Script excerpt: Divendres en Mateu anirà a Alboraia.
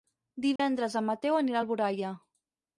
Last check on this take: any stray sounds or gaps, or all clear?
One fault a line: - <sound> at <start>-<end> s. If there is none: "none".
- dropout at 0.6-0.6 s